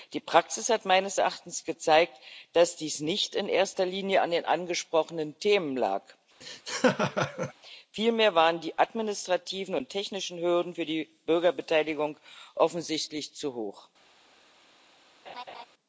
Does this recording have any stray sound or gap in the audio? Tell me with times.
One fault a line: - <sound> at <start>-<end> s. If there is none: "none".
- laugh at 6.4-7.5 s
- laugh at 15.3-15.7 s